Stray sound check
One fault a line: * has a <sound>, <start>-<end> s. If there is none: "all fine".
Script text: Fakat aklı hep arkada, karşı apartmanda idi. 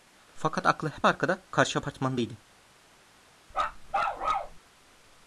* has a bark, 3.5-4.6 s